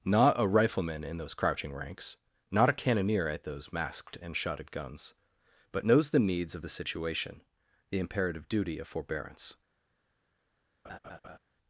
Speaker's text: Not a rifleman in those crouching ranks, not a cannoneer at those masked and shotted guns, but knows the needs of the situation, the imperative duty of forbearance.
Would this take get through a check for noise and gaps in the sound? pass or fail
fail